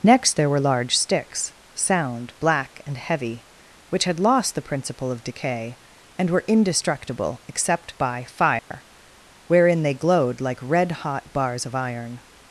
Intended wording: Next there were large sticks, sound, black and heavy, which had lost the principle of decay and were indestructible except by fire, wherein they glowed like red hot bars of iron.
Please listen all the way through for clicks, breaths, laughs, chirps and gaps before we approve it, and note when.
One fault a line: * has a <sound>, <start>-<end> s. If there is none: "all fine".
* has a dropout, 8.6-8.7 s